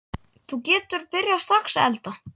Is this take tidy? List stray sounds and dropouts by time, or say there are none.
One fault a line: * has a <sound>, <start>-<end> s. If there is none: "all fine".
all fine